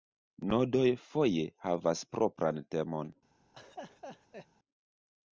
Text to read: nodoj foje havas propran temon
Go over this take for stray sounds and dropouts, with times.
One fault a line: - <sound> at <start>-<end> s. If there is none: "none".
- laugh at 3.5-4.5 s